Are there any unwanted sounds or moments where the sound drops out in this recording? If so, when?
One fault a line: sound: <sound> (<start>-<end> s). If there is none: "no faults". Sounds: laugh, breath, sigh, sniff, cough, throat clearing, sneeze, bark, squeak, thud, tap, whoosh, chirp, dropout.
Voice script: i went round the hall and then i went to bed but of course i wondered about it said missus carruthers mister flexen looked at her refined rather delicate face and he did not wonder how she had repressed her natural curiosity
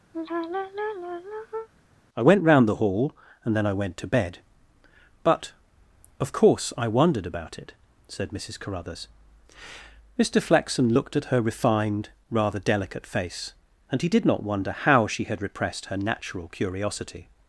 sound: sigh (0.1-1.7 s)